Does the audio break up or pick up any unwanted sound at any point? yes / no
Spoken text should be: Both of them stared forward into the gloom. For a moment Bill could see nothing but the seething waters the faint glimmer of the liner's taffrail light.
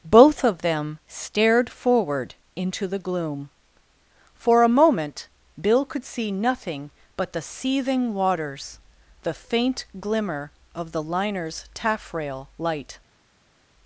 no